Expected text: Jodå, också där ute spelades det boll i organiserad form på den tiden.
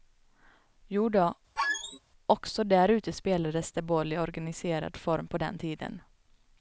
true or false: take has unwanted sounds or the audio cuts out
true